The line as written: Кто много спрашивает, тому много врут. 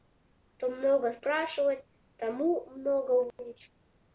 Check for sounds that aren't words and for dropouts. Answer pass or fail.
fail